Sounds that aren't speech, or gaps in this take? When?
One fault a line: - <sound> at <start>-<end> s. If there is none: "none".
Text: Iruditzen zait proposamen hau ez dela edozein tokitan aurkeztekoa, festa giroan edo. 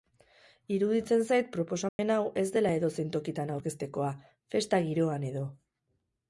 - dropout at 1.9-2.0 s